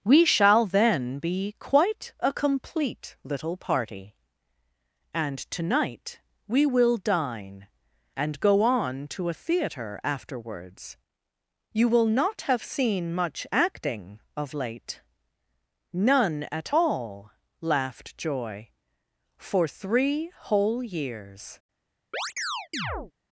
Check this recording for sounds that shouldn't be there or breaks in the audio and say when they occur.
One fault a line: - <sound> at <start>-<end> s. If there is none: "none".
- chirp at 22.1-23.1 s